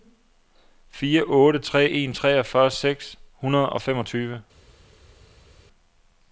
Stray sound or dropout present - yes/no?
no